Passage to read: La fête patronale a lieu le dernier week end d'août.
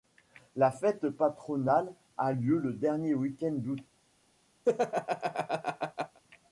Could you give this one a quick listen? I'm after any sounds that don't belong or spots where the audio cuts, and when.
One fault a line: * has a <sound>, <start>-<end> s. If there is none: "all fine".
* has a laugh, 4.6-6.2 s